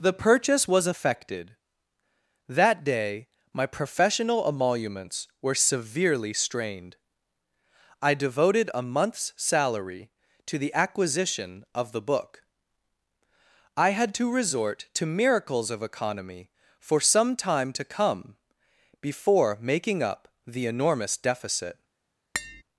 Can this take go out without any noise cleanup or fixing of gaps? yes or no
no